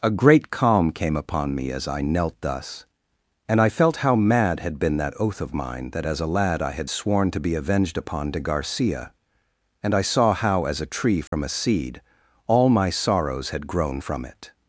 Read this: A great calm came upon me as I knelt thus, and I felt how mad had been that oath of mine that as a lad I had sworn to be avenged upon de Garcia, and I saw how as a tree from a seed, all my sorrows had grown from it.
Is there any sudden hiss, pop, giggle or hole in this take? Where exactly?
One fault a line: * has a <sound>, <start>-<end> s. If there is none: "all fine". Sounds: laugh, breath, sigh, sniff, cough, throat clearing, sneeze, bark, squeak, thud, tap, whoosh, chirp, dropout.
* has a dropout, 11.3-11.3 s